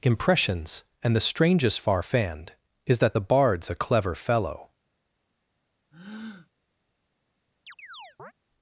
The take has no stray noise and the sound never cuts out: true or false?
false